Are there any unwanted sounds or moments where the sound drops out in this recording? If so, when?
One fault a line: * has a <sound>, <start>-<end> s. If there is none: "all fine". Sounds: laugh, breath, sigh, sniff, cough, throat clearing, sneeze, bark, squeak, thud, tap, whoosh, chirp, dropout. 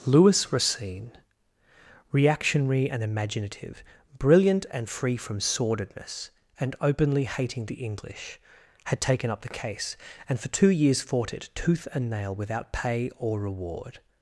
all fine